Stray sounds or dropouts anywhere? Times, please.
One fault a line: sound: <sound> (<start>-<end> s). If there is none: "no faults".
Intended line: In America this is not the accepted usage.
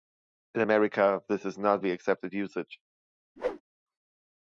sound: whoosh (3.4-3.6 s)